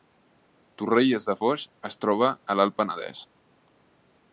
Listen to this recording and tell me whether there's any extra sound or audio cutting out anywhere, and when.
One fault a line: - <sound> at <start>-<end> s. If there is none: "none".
none